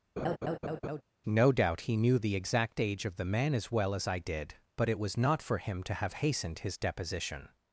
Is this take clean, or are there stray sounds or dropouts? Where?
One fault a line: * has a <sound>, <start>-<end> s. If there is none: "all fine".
* has a laugh, 0.2-1.0 s